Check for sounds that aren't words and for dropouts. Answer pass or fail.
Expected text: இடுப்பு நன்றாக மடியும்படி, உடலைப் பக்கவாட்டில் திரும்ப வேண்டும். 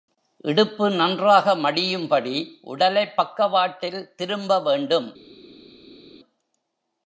pass